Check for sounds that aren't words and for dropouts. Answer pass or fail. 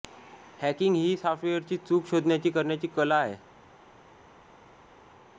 pass